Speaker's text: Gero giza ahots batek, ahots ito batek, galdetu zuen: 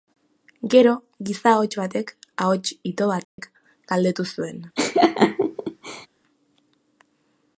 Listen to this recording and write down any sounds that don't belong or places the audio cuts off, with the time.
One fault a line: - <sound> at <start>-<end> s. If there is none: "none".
- dropout at 3.2-3.4 s
- laugh at 4.8-6.1 s